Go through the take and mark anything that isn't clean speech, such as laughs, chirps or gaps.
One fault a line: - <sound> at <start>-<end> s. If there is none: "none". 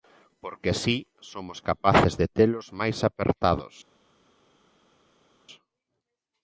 none